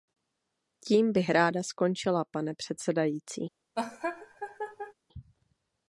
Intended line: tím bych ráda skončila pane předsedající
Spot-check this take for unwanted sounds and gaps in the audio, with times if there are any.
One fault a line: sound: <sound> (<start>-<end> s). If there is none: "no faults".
sound: laugh (3.8-4.9 s)